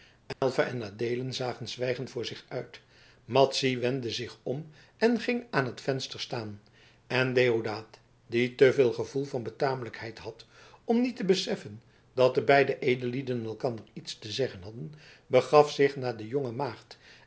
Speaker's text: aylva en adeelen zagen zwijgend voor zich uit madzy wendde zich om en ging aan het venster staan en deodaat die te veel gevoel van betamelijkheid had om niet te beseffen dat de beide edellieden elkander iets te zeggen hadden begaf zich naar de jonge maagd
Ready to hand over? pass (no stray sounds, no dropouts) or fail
fail